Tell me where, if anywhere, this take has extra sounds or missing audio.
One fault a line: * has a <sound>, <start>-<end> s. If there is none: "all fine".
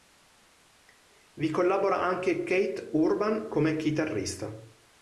all fine